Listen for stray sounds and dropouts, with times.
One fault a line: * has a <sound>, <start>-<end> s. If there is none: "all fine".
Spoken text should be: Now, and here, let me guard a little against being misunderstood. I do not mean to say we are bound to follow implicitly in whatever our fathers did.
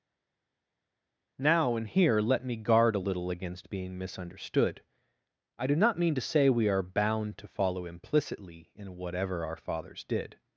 all fine